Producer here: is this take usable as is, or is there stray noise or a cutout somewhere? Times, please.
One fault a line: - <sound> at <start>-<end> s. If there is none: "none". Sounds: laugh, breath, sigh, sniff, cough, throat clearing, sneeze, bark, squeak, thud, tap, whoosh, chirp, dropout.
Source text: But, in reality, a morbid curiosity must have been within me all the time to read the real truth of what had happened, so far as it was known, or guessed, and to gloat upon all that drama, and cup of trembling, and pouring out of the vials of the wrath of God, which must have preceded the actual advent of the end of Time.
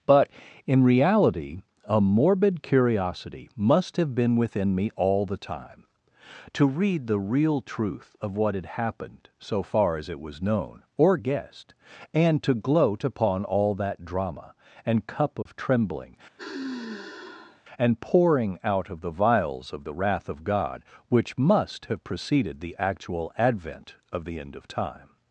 - dropout at 15.4-15.5 s
- sigh at 16.4-17.6 s